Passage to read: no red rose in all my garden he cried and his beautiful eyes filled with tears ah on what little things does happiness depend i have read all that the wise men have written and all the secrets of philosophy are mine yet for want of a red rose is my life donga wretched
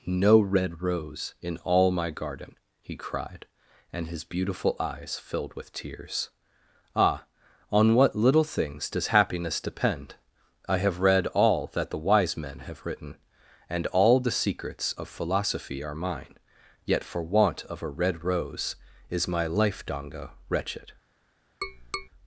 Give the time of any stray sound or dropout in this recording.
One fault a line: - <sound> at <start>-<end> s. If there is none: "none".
- tap at 21.6-22.1 s